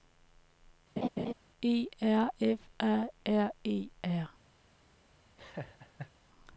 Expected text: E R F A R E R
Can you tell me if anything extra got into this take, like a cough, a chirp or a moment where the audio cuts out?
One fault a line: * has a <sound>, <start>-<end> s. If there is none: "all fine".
* has a laugh, 1.0-1.3 s
* has a laugh, 5.4-6.1 s